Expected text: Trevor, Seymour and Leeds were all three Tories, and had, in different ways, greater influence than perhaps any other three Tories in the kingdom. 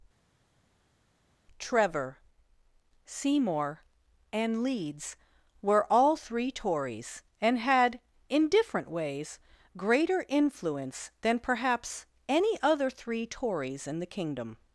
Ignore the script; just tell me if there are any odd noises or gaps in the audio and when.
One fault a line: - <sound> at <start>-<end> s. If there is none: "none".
none